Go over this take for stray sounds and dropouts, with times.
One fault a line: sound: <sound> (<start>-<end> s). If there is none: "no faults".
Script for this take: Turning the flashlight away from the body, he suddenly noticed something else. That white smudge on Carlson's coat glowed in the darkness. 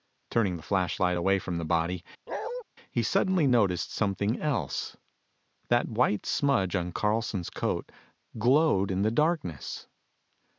sound: bark (2.3-2.6 s)